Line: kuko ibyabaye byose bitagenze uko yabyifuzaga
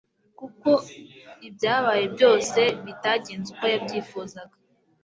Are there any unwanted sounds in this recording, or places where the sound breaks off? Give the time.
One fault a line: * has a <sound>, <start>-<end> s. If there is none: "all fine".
all fine